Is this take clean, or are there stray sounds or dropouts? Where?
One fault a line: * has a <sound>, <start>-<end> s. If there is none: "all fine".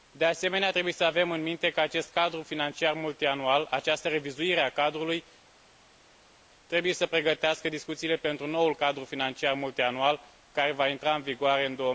all fine